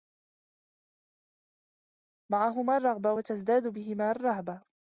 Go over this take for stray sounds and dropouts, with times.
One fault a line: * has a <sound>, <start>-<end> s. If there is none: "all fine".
all fine